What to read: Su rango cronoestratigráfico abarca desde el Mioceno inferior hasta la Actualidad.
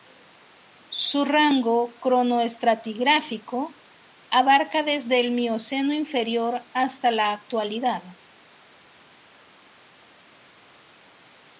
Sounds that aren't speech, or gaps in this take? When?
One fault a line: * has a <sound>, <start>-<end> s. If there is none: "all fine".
all fine